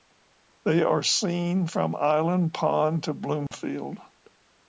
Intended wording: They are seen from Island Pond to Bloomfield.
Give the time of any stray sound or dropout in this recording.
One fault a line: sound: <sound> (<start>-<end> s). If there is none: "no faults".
sound: dropout (3.5-3.5 s)